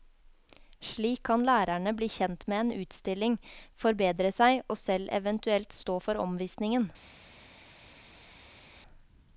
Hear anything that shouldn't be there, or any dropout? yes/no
no